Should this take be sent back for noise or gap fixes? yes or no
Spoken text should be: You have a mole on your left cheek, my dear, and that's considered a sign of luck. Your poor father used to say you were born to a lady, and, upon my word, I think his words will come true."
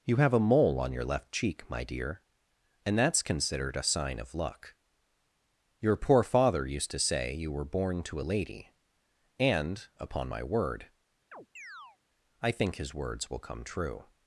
yes